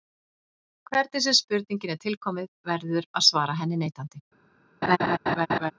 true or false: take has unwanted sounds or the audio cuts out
true